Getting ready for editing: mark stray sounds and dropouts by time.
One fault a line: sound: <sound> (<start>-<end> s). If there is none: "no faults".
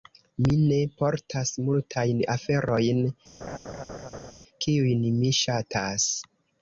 sound: laugh (3.4-4.3 s)